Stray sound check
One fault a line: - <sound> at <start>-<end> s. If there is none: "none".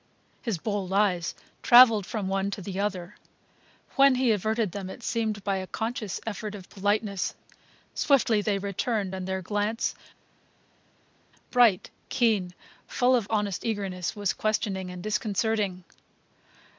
none